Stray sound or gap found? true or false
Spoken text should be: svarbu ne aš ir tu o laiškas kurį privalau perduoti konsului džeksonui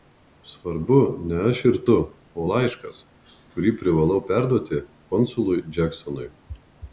false